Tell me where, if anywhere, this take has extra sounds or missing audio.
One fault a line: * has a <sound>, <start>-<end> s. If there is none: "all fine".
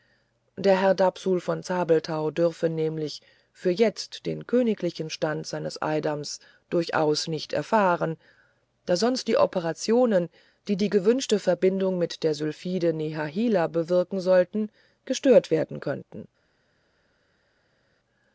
all fine